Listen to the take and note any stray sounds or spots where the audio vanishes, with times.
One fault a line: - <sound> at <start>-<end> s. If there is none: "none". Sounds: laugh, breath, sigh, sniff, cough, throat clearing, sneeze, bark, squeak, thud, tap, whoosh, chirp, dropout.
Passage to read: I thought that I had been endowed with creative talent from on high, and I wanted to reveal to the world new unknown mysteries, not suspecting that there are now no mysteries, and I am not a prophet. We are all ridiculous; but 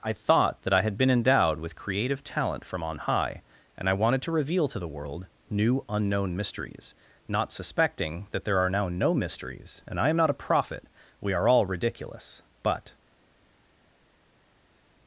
none